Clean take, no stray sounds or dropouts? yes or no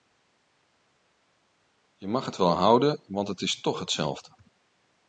yes